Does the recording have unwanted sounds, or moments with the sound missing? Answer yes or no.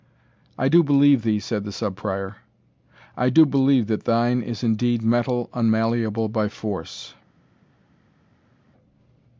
no